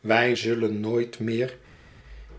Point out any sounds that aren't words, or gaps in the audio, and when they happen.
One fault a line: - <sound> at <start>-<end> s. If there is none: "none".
none